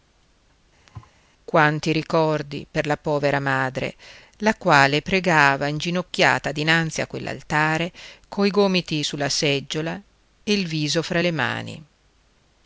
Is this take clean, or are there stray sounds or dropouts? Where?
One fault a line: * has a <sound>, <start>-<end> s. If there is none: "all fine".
* has a thud, 0.9-1.2 s